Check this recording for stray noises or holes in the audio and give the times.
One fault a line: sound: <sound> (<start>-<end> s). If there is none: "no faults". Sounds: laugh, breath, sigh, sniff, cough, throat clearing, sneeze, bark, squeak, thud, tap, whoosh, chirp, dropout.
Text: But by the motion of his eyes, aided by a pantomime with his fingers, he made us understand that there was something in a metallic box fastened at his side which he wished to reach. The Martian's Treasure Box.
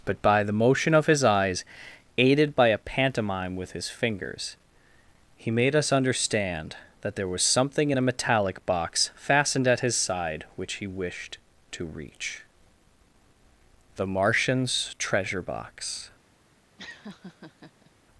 sound: laugh (16.8-17.9 s)